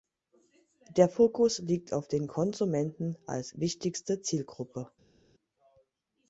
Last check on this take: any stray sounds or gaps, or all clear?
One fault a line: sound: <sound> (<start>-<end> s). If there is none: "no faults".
no faults